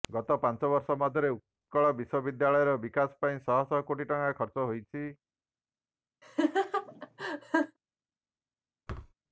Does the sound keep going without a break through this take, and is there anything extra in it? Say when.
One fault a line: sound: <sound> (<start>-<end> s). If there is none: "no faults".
sound: laugh (6.2-7.8 s)
sound: thud (8.9-9.1 s)